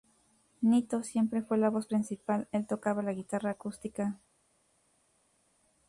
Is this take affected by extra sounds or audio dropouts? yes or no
no